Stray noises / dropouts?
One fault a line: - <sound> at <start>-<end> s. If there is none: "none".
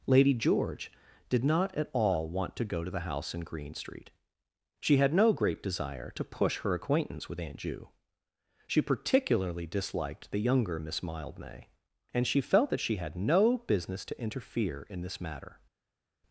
none